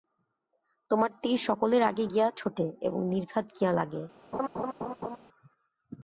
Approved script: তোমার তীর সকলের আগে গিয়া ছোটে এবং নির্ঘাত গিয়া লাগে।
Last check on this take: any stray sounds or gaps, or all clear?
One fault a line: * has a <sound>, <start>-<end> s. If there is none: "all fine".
* has a laugh, 4.3-5.2 s